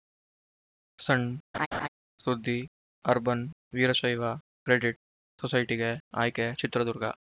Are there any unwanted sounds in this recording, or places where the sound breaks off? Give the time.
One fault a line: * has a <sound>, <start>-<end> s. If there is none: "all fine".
* has a laugh, 1.5-1.9 s